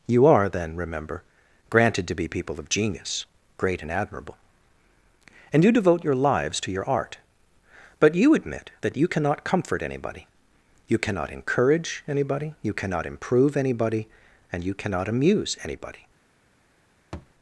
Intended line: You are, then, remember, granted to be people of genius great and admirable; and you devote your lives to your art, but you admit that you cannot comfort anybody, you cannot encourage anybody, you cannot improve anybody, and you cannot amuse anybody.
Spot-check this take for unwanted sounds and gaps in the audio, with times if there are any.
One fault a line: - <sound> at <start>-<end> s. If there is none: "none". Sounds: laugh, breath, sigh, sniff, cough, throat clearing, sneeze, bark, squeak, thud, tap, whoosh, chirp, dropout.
- thud at 17.1-17.3 s